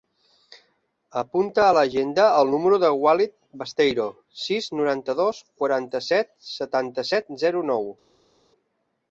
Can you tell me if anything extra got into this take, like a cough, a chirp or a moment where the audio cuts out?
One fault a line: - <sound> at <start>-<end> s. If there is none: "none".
none